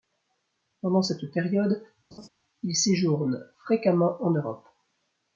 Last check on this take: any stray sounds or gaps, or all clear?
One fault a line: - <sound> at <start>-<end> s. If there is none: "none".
- laugh at 2.1-2.3 s